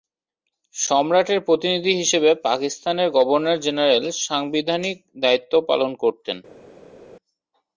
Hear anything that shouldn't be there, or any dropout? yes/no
no